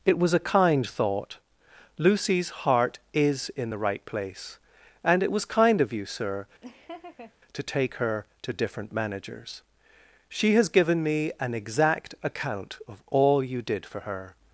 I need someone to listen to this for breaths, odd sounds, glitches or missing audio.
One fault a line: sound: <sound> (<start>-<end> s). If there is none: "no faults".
sound: laugh (6.6-7.3 s)